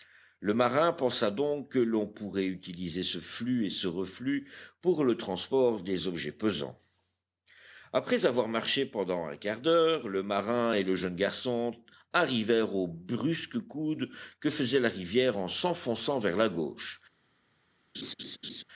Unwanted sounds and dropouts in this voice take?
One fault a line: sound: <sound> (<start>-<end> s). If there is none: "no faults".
sound: laugh (17.9-18.6 s)